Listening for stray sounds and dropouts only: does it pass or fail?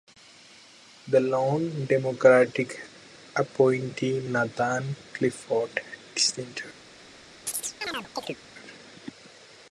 fail